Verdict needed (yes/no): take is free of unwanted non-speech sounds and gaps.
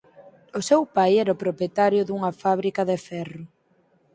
yes